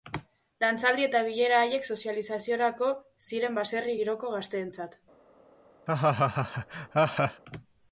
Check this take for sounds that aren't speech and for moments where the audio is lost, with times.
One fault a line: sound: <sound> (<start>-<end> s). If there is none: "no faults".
sound: laugh (5.9-7.4 s)